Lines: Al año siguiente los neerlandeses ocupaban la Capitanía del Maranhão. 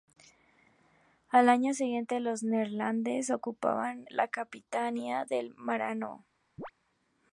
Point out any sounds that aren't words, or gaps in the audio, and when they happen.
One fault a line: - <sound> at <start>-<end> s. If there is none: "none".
- chirp at 6.6-6.7 s